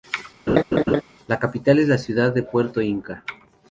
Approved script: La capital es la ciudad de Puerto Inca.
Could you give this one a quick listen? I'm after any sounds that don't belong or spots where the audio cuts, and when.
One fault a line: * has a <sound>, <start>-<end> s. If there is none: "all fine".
* has a laugh, 0.5-1.0 s